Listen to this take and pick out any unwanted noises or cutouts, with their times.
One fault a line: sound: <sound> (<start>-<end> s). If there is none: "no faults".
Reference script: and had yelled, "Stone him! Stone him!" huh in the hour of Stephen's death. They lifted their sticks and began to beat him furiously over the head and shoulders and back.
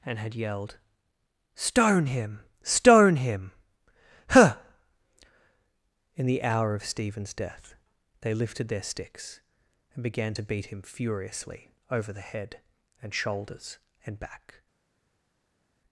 no faults